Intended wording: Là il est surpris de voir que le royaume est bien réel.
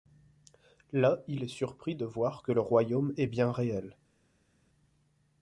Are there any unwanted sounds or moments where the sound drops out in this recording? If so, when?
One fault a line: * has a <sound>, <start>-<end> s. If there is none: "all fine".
all fine